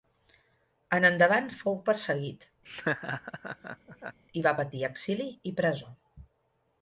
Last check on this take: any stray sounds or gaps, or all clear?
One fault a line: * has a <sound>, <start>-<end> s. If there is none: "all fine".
* has a laugh, 2.6-4.2 s